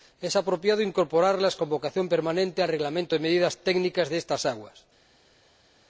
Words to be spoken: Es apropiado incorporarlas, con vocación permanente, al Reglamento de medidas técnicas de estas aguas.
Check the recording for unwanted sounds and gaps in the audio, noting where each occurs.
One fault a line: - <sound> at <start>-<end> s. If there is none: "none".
none